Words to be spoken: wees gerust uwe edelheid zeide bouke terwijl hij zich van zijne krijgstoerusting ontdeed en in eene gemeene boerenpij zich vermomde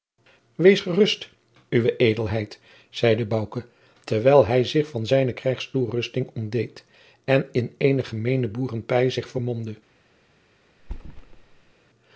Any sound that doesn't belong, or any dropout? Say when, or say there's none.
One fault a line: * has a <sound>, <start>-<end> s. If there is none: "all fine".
* has a thud, 10.8-11.7 s